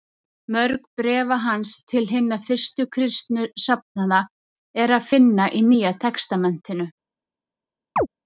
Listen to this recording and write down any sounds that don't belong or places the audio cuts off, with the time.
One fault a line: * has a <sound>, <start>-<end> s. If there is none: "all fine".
* has a chirp, 8.0-8.1 s